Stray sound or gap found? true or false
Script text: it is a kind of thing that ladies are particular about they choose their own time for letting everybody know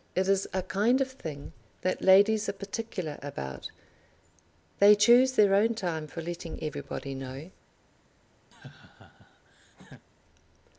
true